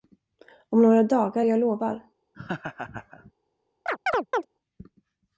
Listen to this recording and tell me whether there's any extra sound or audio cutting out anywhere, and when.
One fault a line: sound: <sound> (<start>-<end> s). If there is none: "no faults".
sound: laugh (2.3-3.3 s)
sound: chirp (3.9-4.5 s)